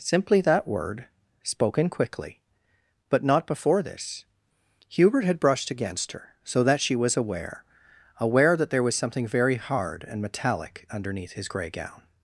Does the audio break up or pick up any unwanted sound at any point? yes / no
no